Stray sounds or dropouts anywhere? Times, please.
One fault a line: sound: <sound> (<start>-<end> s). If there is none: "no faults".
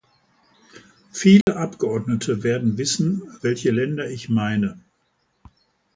sound: dropout (1.4-1.5 s)